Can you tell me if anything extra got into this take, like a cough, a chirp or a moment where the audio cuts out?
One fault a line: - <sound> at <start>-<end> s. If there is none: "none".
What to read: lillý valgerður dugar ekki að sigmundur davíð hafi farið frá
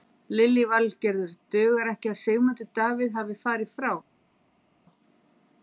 none